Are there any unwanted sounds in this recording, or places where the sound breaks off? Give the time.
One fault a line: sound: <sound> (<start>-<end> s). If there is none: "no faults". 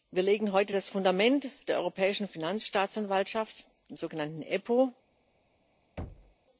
sound: thud (6.0-6.3 s)